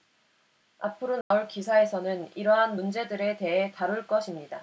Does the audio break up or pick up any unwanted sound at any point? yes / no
yes